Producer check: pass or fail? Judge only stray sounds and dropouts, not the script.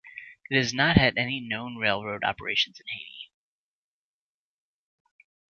pass